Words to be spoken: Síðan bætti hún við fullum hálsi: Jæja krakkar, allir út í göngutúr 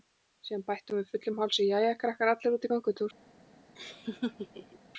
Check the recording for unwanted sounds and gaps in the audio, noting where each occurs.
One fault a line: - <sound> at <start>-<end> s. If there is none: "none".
- laugh at 3.8-4.8 s